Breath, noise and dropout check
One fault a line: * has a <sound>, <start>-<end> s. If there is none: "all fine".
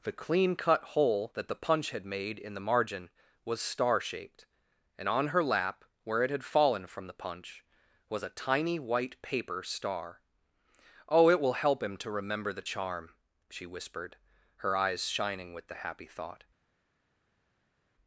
all fine